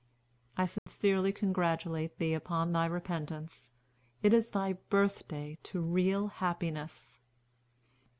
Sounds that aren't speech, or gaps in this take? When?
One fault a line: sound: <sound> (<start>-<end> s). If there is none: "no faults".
sound: dropout (0.8-0.9 s)